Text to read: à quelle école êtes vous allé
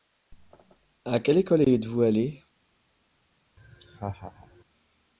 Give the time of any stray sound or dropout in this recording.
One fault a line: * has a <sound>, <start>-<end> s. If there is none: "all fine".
* has a laugh, 3.6-4.6 s